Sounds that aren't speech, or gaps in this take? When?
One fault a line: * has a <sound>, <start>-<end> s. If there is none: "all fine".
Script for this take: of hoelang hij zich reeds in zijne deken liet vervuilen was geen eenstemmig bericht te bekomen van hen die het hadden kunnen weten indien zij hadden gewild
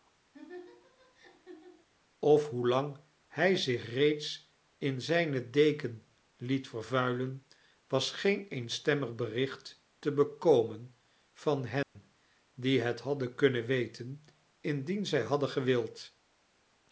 * has a laugh, 0.3-1.9 s
* has a dropout, 11.8-12.0 s